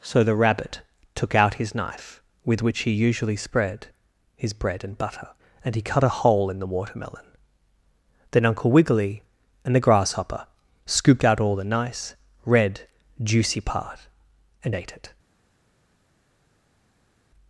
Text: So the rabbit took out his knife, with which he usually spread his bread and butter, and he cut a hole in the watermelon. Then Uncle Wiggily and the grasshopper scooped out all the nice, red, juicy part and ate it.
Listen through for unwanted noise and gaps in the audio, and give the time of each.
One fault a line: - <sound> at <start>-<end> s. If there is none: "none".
none